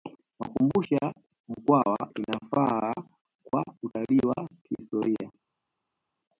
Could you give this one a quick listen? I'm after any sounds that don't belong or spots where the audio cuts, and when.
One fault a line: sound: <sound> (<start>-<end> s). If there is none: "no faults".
no faults